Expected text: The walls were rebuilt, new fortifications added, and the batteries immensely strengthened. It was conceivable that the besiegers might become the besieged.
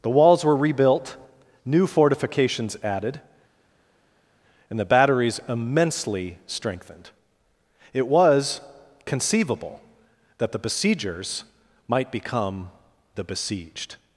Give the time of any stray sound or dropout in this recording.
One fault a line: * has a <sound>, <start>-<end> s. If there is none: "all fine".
all fine